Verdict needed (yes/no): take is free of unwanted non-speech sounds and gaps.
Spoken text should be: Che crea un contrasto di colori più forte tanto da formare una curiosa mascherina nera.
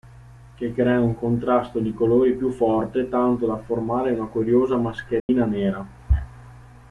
no